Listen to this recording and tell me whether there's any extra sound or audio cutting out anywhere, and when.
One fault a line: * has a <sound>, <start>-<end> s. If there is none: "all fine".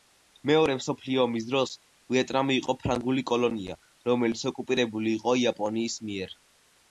all fine